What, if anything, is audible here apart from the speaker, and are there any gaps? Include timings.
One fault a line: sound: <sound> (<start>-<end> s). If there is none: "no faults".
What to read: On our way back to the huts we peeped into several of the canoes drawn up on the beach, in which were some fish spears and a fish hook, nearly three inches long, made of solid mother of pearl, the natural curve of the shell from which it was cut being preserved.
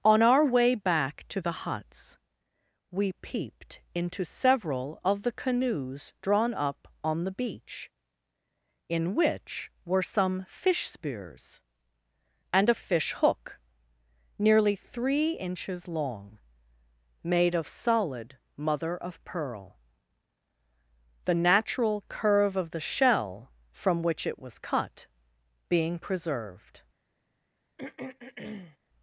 sound: throat clearing (27.8-28.8 s)